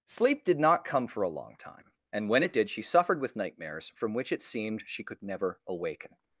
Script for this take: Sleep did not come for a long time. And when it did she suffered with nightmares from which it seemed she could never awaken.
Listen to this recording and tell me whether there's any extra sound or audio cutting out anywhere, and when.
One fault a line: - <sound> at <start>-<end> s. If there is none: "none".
none